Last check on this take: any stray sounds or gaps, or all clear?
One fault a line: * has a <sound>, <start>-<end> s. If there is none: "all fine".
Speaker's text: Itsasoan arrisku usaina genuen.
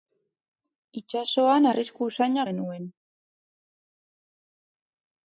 all fine